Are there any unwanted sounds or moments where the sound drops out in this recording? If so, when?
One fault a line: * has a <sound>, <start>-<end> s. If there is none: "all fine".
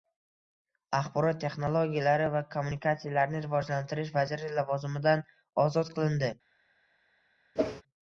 * has a whoosh, 7.6-7.8 s